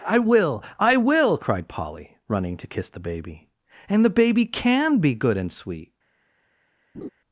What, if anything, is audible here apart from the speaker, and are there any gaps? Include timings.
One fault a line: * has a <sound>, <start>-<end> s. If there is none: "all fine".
* has a laugh, 6.9-7.1 s